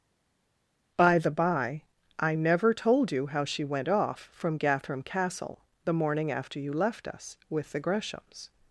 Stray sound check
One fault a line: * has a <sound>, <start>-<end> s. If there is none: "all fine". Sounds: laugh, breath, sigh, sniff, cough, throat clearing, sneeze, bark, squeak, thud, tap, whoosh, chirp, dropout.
all fine